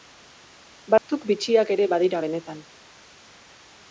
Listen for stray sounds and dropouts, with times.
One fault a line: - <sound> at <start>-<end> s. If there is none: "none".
- dropout at 1.0-1.1 s